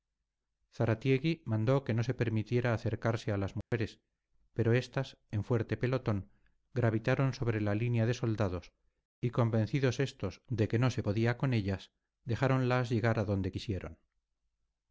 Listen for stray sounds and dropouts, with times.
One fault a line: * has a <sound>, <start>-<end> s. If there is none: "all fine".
* has a dropout, 3.6-3.7 s